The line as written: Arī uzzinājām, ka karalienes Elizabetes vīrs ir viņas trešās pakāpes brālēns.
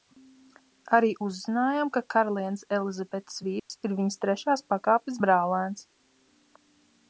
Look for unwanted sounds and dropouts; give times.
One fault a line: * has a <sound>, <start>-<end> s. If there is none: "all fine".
* has a dropout, 3.6-3.7 s